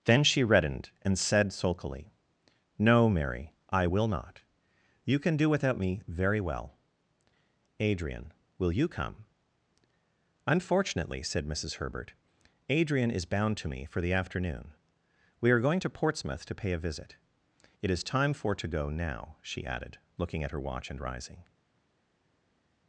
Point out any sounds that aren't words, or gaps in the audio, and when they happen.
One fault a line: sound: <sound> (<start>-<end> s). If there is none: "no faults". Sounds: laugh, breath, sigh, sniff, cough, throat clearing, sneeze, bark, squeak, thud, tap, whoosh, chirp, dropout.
no faults